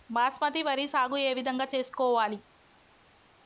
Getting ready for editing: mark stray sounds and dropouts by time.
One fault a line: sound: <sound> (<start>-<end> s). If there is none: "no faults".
no faults